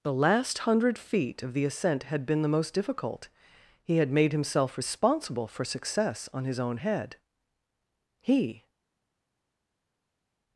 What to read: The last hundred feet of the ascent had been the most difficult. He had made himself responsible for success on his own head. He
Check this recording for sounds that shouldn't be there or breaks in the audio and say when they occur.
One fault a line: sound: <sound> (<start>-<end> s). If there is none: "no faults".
no faults